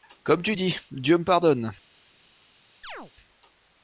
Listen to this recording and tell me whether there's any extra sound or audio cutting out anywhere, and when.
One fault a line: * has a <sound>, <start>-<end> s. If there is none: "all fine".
* has a chirp, 2.8-3.1 s